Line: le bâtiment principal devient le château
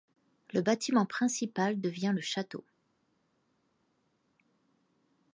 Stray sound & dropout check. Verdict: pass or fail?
pass